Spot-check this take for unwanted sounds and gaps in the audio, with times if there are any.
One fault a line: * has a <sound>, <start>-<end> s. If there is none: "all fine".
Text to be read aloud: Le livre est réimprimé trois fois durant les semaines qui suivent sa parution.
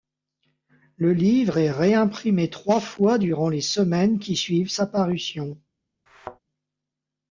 * has a thud, 6.1-6.4 s